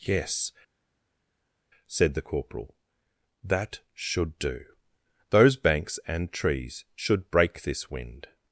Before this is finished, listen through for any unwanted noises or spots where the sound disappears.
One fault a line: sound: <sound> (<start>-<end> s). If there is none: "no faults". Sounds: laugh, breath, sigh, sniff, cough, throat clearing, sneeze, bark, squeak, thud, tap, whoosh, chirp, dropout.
no faults